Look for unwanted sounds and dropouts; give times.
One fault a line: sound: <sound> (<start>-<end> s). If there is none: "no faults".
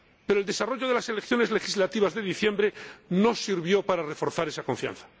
no faults